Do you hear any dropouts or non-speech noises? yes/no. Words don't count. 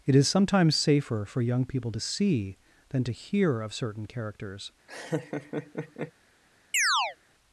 yes